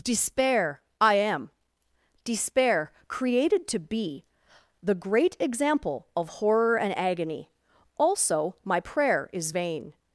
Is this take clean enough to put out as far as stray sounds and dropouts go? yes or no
yes